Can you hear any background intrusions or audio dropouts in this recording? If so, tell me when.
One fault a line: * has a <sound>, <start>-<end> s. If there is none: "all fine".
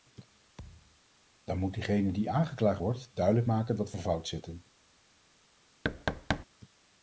* has a thud, 0.6-1.0 s
* has a thud, 5.8-6.5 s